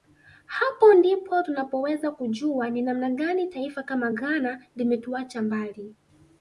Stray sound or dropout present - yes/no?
no